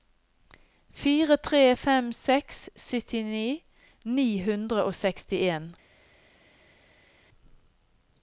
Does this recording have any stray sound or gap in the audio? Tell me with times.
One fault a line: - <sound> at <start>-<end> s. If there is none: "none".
none